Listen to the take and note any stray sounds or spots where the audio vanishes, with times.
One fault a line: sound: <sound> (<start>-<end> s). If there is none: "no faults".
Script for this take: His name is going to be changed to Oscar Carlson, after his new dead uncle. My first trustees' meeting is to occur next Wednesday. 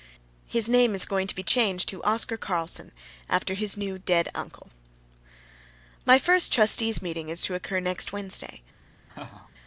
sound: laugh (9.1-9.5 s)